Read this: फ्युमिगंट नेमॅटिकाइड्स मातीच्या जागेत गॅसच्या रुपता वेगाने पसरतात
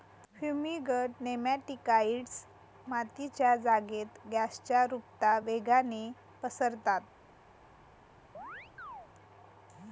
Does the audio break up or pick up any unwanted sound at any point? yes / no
yes